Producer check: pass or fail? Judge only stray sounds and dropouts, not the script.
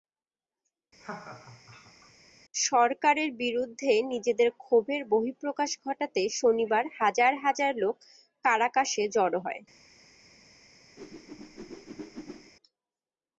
fail